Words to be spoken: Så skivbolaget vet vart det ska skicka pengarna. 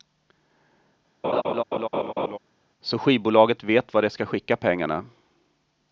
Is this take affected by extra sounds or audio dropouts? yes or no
yes